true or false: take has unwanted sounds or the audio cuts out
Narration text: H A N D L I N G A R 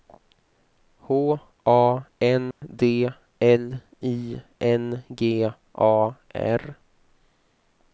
true